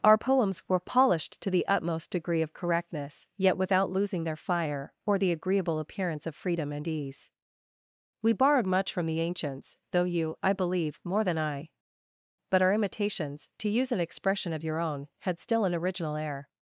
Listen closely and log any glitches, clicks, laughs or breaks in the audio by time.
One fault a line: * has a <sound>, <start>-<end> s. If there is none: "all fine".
all fine